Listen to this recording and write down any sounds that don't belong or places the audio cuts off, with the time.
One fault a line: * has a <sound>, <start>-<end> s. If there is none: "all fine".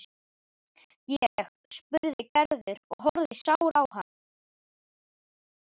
all fine